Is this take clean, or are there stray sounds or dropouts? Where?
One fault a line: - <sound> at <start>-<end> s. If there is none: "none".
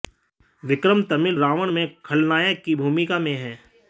none